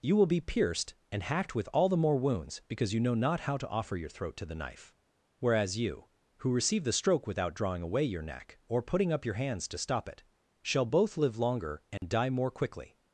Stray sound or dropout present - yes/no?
yes